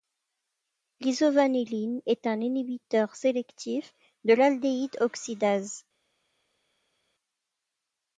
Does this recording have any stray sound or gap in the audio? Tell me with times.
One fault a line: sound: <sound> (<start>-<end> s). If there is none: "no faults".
no faults